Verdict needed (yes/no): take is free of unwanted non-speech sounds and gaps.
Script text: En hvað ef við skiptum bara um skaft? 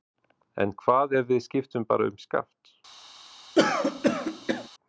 no